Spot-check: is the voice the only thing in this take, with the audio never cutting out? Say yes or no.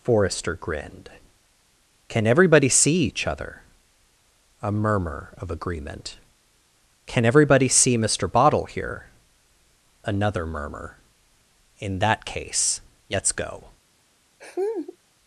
no